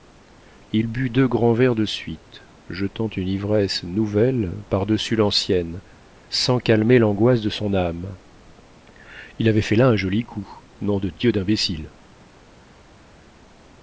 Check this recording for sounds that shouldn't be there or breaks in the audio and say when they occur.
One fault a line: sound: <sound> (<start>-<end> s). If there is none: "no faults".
no faults